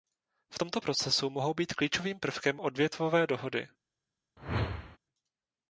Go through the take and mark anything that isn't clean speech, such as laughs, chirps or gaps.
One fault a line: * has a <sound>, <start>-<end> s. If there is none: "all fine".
* has a whoosh, 4.4-5.0 s